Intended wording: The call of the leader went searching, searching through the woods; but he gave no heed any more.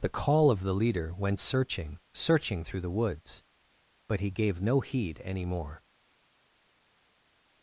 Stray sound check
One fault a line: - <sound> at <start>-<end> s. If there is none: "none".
none